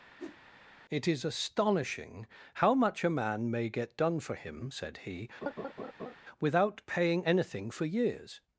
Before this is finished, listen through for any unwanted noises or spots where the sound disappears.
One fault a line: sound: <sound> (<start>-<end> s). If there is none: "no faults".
sound: whoosh (0.2-0.4 s)
sound: laugh (5.4-6.2 s)